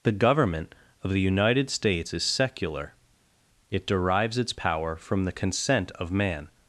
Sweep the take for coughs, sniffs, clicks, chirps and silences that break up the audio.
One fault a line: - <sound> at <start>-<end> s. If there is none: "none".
none